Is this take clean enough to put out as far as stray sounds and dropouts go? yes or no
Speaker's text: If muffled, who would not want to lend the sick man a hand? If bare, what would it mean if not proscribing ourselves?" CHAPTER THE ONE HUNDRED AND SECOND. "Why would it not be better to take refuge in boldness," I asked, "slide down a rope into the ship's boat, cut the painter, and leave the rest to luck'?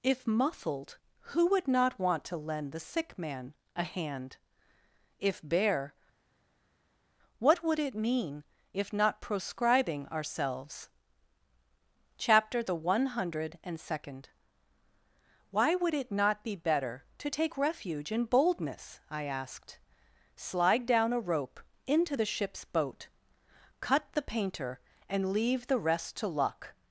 yes